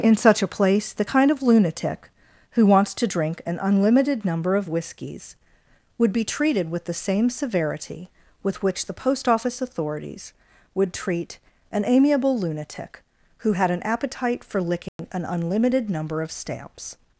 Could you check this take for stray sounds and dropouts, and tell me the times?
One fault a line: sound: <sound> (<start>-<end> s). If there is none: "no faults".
sound: dropout (14.9-15.0 s)